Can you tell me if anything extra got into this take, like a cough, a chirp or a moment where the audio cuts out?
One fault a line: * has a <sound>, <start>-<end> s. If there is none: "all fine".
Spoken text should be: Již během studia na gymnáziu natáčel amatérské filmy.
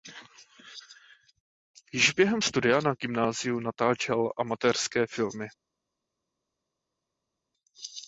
all fine